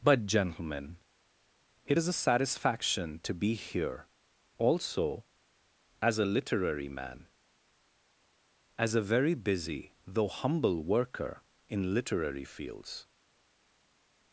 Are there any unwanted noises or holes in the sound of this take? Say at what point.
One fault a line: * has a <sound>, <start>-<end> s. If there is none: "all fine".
all fine